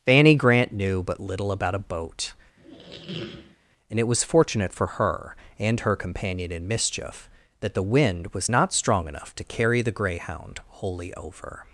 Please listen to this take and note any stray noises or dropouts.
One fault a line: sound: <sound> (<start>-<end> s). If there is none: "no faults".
sound: squeak (2.6-3.6 s)